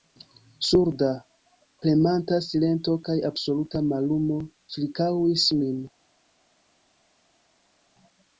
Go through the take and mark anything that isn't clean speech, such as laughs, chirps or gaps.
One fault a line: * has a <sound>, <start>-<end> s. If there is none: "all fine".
all fine